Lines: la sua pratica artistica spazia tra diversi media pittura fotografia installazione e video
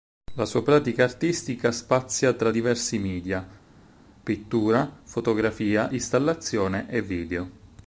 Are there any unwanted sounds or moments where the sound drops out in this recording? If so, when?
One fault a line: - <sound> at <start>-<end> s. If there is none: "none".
none